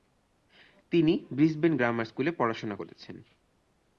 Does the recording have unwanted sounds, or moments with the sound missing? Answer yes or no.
no